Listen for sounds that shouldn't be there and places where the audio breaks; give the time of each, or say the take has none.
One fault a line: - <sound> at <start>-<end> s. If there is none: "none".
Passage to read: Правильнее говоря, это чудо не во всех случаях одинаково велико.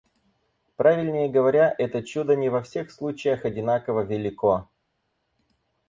none